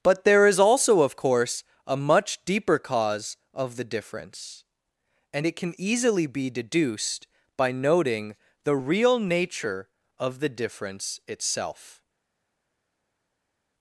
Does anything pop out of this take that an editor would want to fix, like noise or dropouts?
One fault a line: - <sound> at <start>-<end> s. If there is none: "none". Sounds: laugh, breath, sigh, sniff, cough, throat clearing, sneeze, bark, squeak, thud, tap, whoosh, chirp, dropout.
none